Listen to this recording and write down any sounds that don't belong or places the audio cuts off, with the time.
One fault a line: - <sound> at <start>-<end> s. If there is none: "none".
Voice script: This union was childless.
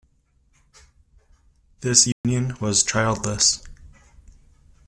- dropout at 2.1-2.2 s